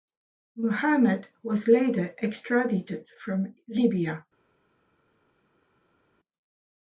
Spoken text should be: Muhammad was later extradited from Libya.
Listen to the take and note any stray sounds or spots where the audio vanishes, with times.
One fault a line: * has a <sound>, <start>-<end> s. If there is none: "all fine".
all fine